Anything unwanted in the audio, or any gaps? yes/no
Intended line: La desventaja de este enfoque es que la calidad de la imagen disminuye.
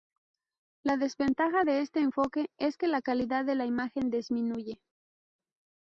no